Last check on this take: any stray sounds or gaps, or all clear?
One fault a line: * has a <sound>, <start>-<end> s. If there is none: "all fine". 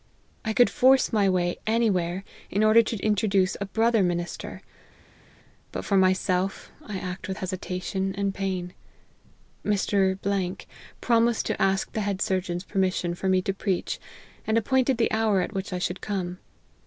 all fine